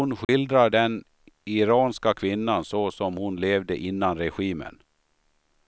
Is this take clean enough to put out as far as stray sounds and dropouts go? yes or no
no